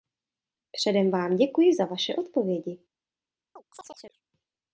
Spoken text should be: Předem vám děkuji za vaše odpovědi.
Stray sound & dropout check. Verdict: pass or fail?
fail